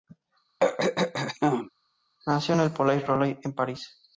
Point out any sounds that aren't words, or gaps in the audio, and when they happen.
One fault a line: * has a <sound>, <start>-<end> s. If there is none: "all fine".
* has a throat clearing, 0.6-1.7 s